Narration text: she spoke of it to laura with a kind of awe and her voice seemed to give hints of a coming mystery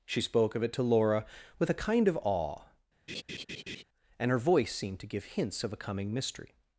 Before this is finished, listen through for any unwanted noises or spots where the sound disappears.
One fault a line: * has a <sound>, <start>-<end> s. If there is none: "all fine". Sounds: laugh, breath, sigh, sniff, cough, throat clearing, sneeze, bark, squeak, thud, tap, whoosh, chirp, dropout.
* has a laugh, 3.1-3.8 s